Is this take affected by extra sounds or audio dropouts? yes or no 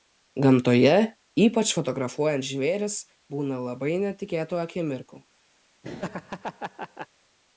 yes